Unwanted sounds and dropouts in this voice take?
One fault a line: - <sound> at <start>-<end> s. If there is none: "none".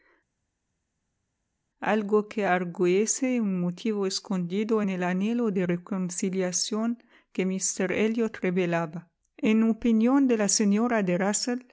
none